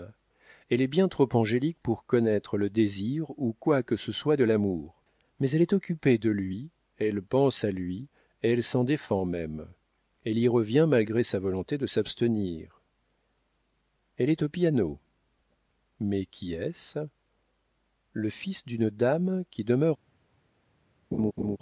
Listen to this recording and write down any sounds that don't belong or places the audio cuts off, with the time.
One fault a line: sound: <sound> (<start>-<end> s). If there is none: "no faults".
sound: laugh (21.1-21.6 s)